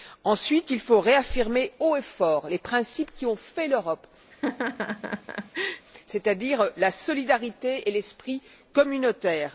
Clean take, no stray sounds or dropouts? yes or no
no